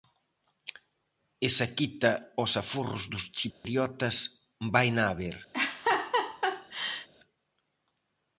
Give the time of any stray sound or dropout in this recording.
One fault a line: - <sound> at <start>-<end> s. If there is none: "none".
- dropout at 3.5-3.6 s
- laugh at 5.5-7.1 s